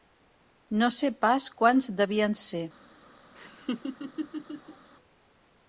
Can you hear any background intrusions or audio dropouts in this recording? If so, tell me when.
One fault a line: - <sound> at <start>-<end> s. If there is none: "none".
- laugh at 3.3-4.9 s